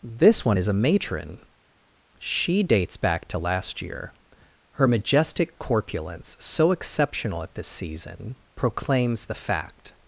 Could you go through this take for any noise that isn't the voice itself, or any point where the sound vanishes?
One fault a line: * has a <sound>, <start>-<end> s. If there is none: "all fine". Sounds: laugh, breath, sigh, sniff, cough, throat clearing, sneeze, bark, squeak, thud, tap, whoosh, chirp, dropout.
all fine